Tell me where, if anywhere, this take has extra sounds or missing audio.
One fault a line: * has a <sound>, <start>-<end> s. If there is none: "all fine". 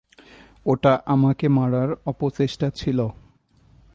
all fine